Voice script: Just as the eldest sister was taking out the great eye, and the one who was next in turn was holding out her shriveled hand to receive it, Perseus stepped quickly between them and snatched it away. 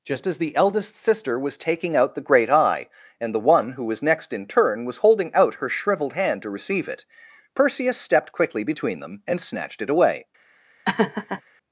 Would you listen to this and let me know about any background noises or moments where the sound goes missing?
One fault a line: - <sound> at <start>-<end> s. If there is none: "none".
- laugh at 10.8-11.4 s